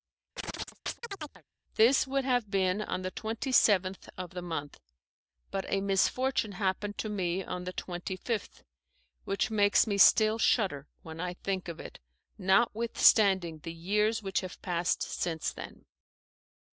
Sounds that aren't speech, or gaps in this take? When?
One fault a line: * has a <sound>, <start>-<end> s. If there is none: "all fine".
* has a chirp, 0.4-1.4 s